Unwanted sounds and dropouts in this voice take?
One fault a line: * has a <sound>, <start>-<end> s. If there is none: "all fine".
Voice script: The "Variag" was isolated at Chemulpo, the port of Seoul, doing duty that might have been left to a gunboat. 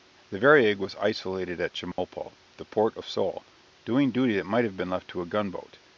* has a dropout, 1.9-2.0 s